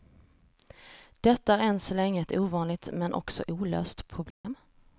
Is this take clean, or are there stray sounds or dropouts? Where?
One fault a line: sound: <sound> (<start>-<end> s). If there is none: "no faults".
sound: dropout (4.3-4.4 s)